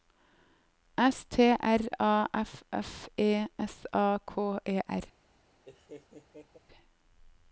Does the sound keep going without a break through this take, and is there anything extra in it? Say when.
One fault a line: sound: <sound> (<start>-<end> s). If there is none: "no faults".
sound: laugh (5.6-6.6 s)